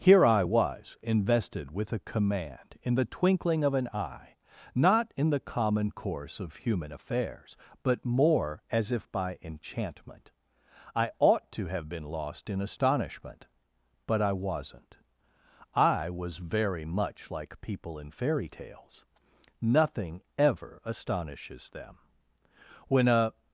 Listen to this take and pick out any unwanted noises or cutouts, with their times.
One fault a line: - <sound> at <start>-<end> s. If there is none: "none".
none